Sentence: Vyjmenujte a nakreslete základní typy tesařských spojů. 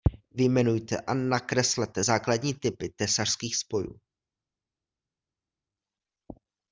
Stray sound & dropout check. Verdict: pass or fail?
pass